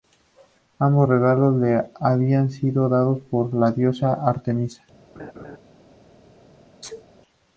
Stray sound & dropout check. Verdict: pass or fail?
fail